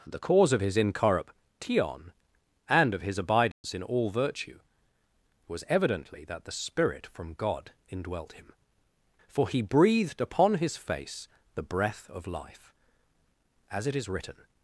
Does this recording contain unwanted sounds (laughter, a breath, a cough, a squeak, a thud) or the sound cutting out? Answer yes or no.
yes